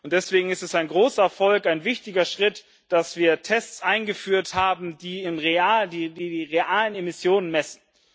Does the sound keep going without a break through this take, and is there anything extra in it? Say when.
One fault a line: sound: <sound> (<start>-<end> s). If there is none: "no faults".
no faults